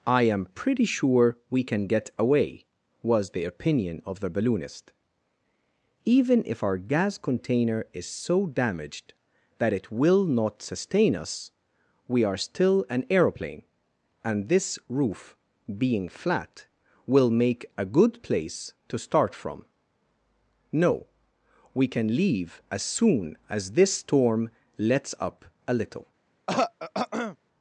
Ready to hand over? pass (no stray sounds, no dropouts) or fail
fail